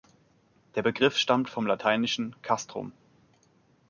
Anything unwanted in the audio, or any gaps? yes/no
no